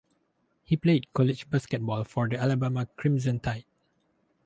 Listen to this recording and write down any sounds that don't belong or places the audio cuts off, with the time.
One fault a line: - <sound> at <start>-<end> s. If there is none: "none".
none